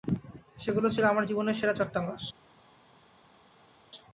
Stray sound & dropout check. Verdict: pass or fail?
pass